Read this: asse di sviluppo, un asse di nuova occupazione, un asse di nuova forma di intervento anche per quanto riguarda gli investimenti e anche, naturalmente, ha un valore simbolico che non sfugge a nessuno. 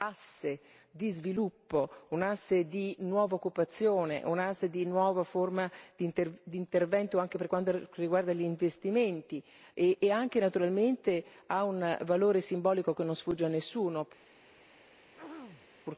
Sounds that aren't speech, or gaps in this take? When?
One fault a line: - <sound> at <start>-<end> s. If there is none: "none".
- throat clearing at 15.1-15.7 s